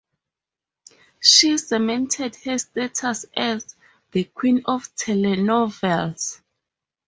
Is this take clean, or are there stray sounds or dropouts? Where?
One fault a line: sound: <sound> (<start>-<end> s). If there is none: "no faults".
no faults